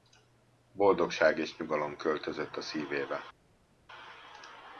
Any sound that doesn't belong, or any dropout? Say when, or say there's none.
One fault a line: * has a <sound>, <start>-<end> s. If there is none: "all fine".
all fine